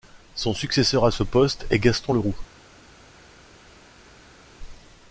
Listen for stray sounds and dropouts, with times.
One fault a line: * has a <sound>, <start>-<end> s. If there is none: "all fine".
all fine